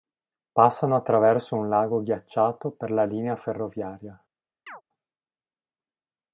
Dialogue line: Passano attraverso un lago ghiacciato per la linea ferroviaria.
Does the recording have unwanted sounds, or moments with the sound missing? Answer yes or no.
yes